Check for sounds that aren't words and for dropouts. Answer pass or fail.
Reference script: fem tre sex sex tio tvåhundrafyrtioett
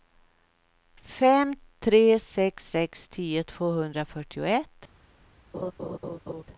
fail